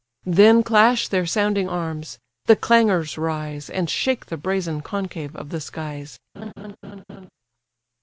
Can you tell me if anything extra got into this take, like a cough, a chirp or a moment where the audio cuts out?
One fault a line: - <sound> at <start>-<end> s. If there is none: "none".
- laugh at 6.3-7.3 s